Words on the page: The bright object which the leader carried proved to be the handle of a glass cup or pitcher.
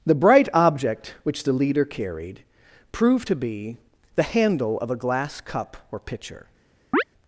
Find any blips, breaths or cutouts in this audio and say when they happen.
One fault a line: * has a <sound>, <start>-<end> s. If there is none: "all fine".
* has a chirp, 6.9-7.0 s